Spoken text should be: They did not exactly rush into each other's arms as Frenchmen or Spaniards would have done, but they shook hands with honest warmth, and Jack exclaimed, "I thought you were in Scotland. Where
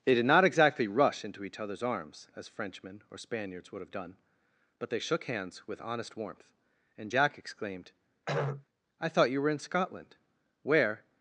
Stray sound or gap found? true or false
true